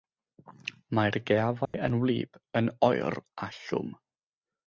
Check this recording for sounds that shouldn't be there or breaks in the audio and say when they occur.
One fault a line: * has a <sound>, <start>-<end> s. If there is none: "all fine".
* has a dropout, 1.7-1.7 s